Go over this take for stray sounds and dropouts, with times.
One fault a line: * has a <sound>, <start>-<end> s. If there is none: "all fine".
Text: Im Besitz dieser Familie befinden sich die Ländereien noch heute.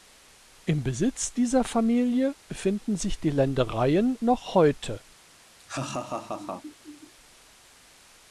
* has a laugh, 5.6-7.1 s